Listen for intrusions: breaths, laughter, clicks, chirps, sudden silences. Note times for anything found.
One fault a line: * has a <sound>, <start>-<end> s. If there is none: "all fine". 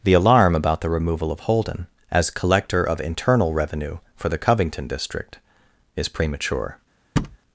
* has a thud, 7.2-7.4 s